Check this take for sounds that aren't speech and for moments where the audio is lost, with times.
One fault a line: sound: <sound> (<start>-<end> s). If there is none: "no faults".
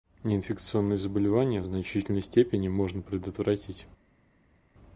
no faults